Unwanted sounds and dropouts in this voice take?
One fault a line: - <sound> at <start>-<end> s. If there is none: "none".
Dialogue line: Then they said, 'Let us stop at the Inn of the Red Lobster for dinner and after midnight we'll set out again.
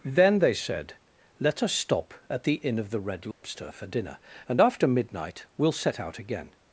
- dropout at 3.3-3.4 s